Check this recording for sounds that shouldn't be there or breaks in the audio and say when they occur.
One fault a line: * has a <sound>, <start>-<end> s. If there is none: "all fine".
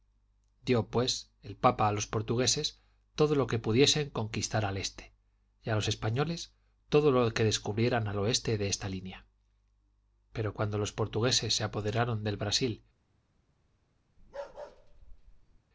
* has a bark, 14.2-15.6 s